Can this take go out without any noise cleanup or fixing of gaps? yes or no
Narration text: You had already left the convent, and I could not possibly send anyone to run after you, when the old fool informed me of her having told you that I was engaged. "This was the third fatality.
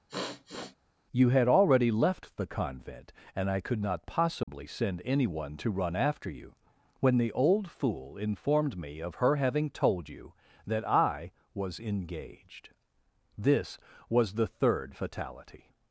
no